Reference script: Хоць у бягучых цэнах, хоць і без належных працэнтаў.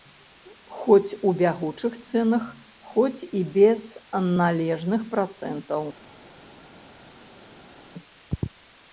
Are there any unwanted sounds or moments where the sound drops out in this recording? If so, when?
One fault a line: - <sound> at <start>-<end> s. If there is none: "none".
none